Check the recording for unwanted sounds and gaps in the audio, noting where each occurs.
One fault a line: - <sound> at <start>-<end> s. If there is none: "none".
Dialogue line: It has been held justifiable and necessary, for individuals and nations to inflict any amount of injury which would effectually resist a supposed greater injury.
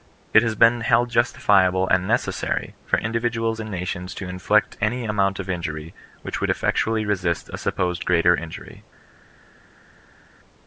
none